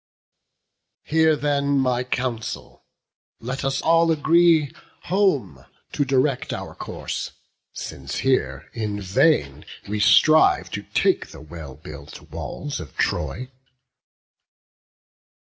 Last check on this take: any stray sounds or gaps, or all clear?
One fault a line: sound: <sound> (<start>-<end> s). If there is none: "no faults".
no faults